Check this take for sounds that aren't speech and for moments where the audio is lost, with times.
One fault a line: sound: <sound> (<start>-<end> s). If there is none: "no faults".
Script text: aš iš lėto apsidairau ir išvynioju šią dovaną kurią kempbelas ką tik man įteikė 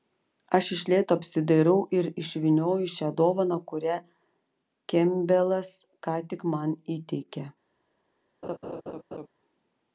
sound: laugh (8.4-9.3 s)